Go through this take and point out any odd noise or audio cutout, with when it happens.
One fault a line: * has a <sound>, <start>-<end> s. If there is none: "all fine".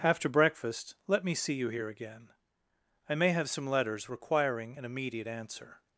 all fine